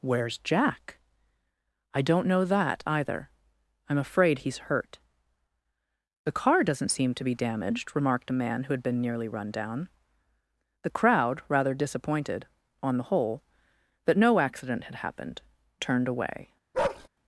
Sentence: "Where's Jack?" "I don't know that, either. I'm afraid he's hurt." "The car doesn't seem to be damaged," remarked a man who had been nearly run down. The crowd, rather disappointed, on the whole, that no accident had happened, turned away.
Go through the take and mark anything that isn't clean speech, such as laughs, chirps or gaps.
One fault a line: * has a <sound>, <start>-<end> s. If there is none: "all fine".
* has a bark, 16.7-17.1 s